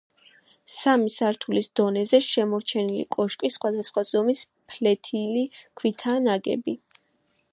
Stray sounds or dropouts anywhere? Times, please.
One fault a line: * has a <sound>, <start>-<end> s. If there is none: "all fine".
all fine